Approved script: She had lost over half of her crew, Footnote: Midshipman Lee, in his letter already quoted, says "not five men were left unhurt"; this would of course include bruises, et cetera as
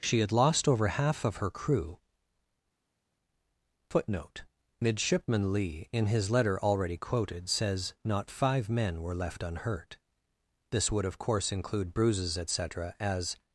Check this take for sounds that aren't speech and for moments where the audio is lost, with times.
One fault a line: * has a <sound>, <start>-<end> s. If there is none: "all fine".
all fine